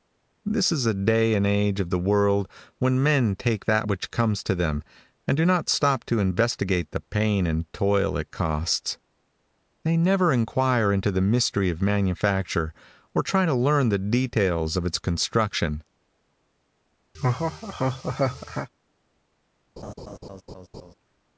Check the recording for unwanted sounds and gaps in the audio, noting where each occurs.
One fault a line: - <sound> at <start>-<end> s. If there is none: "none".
- laugh at 17.1-18.7 s
- laugh at 19.8-20.9 s